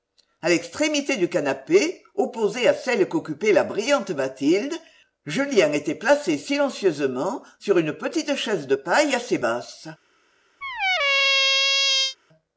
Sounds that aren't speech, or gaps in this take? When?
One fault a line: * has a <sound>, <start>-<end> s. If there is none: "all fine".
* has a squeak, 10.6-12.2 s